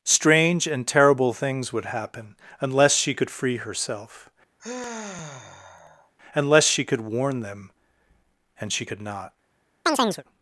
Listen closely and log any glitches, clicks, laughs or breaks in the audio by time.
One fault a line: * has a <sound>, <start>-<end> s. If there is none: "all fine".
* has a sigh, 4.6-6.1 s
* has a chirp, 9.9-10.2 s